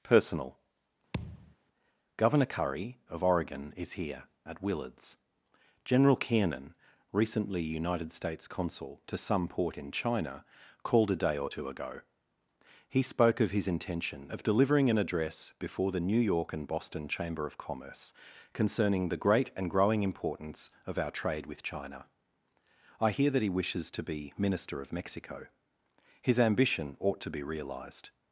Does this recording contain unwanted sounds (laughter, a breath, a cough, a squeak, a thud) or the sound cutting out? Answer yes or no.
yes